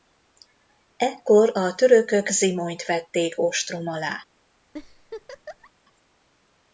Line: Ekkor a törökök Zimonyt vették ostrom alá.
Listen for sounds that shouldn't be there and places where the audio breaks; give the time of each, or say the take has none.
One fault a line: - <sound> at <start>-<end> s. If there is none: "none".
- laugh at 4.7-5.7 s